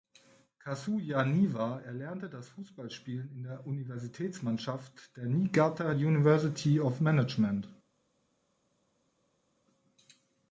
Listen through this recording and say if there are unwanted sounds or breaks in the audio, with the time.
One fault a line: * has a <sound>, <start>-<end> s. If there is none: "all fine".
all fine